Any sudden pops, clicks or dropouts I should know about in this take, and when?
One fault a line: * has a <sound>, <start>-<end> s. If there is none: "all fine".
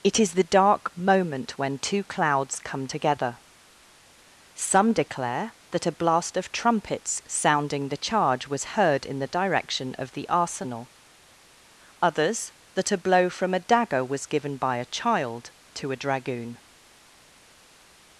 all fine